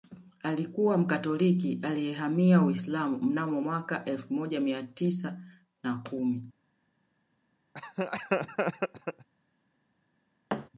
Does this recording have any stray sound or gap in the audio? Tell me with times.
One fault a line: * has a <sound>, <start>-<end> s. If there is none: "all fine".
* has a laugh, 7.7-9.3 s
* has a thud, 10.5-10.7 s